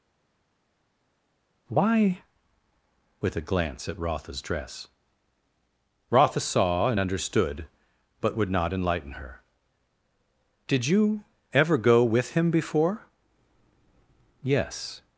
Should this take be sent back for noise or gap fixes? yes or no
no